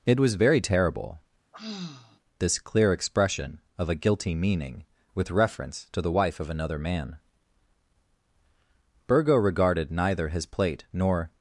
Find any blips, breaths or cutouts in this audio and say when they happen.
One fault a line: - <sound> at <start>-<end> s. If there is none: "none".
- sigh at 1.5-2.2 s